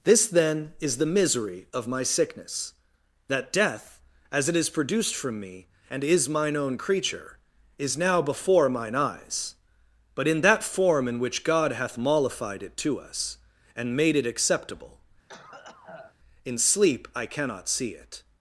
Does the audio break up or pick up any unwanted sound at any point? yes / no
yes